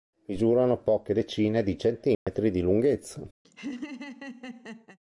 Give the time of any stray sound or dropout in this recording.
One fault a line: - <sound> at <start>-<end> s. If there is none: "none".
- dropout at 2.1-2.3 s
- laugh at 3.4-5.0 s